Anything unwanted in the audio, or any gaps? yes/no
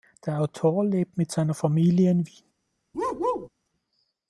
yes